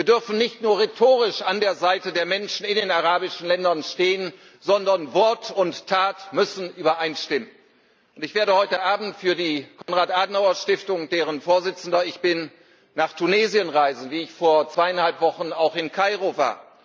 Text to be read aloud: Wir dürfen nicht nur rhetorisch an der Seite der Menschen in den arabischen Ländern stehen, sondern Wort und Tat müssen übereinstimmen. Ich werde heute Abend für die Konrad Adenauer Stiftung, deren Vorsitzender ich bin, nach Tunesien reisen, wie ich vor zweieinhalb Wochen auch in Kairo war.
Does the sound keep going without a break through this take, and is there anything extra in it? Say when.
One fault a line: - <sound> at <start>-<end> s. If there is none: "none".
- dropout at 9.8-9.9 s